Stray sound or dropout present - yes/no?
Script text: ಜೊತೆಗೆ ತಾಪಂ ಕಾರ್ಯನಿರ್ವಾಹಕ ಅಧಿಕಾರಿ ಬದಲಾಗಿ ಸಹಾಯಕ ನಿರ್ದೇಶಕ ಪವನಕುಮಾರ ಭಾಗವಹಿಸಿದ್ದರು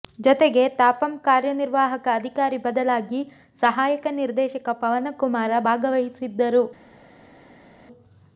no